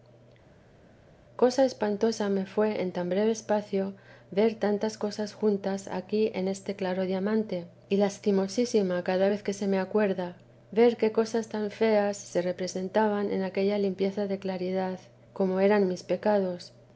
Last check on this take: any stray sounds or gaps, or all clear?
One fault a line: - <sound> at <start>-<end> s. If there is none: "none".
none